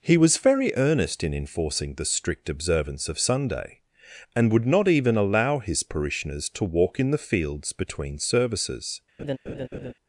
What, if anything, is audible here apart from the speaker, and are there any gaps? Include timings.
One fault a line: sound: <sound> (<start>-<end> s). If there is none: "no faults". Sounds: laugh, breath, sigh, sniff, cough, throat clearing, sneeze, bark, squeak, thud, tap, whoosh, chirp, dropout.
sound: laugh (9.2-9.9 s)